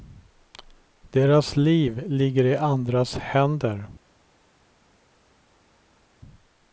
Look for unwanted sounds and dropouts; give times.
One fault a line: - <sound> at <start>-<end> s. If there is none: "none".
none